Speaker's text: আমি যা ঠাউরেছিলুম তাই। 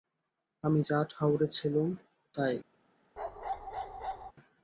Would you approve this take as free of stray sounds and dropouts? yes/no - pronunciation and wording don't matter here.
no